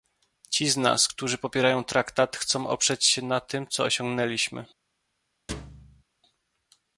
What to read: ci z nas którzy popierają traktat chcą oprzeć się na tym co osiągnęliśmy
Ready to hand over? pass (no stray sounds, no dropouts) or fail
fail